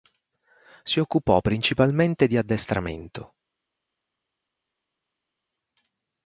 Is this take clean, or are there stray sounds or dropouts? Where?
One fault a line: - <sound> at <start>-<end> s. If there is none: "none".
none